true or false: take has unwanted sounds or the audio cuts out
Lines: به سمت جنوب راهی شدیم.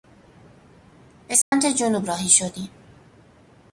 true